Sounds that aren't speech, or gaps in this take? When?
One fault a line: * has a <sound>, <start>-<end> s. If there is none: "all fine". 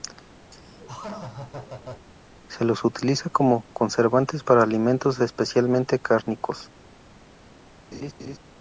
* has a laugh, 0.5-2.1 s
* has a laugh, 7.9-8.4 s